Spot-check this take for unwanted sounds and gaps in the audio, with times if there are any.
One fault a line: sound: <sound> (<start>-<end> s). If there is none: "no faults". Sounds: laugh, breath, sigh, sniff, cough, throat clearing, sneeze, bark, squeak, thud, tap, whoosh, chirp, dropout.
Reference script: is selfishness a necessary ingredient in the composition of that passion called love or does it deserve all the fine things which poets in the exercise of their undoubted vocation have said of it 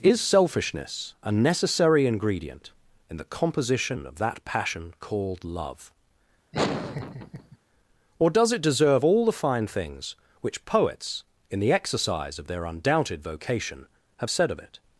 sound: laugh (6.5-7.6 s)